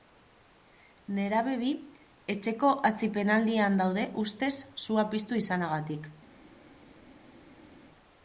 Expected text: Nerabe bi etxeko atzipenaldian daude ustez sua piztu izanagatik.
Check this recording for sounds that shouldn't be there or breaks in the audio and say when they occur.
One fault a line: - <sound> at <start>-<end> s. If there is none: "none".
none